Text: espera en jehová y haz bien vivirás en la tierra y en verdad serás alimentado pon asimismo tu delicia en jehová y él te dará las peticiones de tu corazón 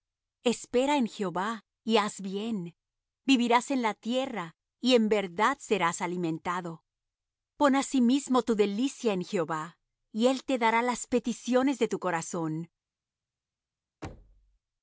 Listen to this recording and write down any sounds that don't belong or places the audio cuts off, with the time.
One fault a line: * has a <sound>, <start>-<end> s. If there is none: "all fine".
* has a thud, 14.0-14.6 s